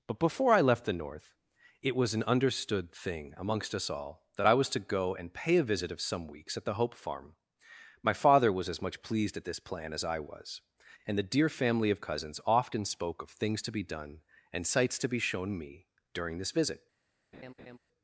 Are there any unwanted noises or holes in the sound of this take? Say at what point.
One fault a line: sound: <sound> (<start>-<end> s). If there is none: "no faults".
sound: laugh (17.3-17.8 s)